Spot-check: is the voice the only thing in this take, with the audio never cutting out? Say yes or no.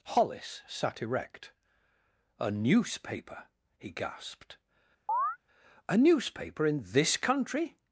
no